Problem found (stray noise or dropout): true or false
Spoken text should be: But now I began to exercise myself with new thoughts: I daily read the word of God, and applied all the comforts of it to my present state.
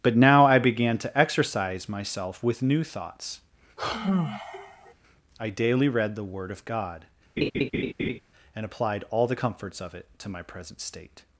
true